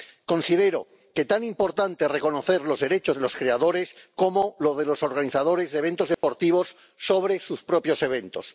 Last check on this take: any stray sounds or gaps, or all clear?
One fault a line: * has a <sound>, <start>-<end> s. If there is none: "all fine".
* has a dropout, 6.1-6.2 s